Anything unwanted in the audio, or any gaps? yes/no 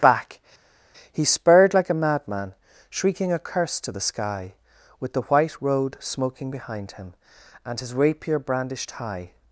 no